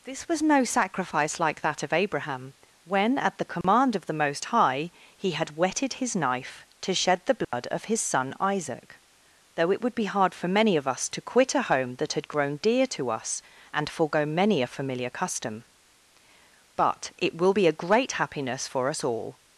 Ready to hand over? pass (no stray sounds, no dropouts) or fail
fail